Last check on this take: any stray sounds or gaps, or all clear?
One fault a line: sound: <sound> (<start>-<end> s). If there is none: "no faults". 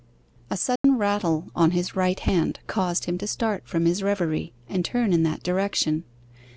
sound: dropout (0.8-0.8 s)